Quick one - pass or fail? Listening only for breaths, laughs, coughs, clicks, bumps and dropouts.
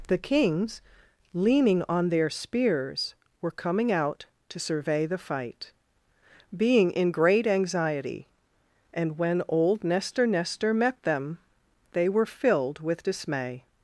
pass